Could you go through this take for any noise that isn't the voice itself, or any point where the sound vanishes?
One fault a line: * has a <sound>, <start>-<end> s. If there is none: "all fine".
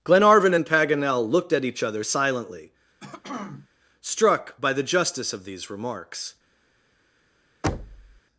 * has a throat clearing, 3.0-3.7 s
* has a thud, 7.6-8.2 s